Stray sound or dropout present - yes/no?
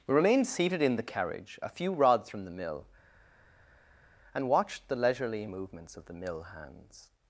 no